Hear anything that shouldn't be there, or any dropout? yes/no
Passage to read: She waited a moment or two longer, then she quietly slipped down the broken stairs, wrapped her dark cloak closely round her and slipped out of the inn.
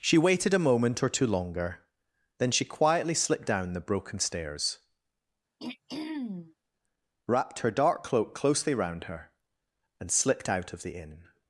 yes